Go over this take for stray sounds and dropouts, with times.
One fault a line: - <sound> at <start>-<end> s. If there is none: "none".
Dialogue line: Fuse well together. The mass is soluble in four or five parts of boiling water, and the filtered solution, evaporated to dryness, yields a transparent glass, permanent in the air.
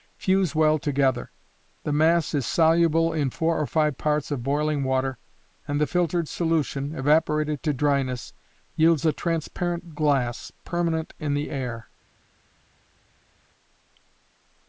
none